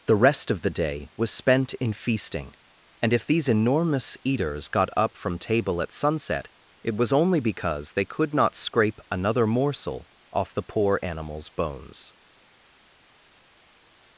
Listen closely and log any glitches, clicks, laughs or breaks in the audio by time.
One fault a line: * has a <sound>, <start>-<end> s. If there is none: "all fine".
all fine